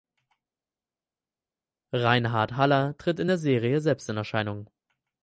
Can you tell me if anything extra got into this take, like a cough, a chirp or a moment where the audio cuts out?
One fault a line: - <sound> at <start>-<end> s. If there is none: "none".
none